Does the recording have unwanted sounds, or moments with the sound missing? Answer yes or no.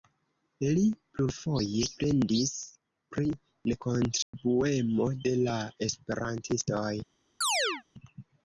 yes